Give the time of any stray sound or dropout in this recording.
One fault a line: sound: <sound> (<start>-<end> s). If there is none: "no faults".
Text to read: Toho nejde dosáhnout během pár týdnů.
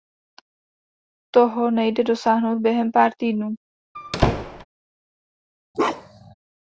sound: squeak (3.9-4.6 s)
sound: bark (5.7-6.3 s)